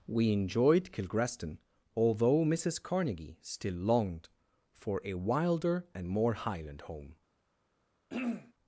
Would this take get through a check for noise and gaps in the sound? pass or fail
fail